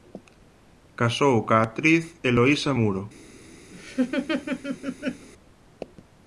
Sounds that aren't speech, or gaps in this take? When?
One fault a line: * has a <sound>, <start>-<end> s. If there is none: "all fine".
* has a laugh, 3.7-5.3 s